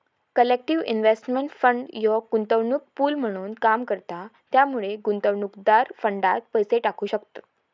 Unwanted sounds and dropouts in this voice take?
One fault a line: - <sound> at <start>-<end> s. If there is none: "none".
none